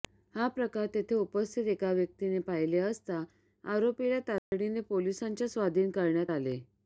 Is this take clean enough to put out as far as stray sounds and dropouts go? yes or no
no